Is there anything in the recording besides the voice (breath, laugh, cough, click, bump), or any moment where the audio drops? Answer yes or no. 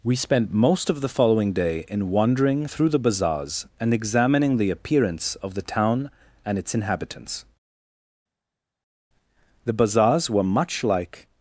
no